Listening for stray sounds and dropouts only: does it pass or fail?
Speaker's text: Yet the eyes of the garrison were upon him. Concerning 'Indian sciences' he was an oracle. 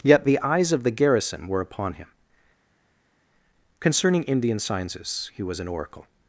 pass